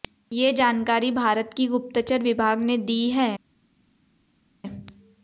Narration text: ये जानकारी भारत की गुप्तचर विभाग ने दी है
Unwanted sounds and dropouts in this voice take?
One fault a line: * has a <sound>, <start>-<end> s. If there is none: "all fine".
all fine